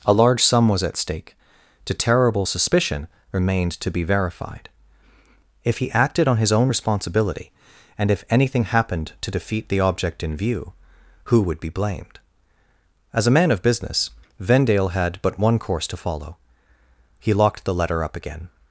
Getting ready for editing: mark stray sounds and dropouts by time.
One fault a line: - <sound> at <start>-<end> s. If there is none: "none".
none